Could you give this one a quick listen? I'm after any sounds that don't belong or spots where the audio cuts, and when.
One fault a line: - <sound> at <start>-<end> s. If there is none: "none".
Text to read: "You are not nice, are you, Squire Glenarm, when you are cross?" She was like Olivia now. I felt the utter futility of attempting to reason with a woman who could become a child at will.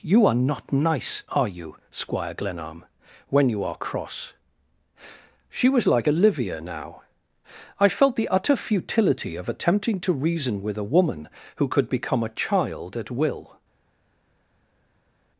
none